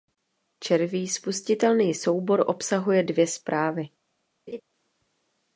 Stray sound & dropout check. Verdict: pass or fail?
fail